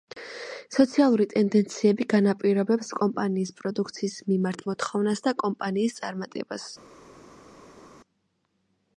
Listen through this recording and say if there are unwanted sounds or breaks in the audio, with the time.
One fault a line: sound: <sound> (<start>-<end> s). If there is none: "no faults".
no faults